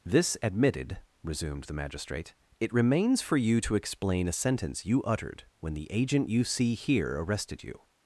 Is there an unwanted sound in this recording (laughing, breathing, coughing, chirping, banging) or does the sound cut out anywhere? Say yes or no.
no